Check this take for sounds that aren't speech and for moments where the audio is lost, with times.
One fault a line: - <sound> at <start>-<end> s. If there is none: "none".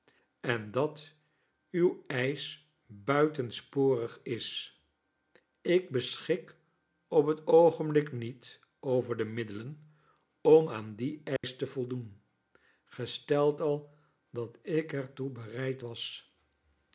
- dropout at 11.4-11.4 s